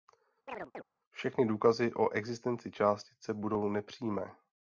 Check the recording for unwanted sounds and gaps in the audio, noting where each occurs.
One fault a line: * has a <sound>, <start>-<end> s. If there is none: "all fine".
* has a chirp, 0.5-0.8 s